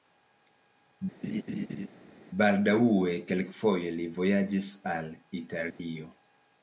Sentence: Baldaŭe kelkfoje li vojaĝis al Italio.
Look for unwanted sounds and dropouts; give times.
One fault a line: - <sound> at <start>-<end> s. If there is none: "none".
- laugh at 1.2-1.9 s
- dropout at 5.7-5.8 s